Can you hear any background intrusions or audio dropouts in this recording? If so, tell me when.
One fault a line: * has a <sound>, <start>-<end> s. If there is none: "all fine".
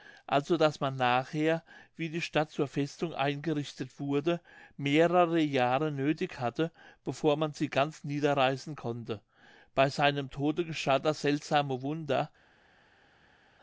all fine